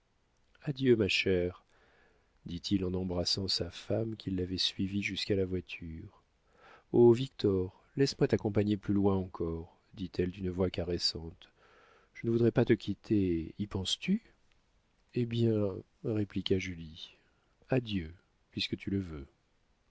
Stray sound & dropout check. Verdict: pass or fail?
pass